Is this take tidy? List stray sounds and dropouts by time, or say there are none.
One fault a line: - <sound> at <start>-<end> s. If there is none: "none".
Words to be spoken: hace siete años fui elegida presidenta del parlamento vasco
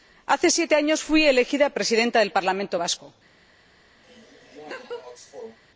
- laugh at 4.0-5.6 s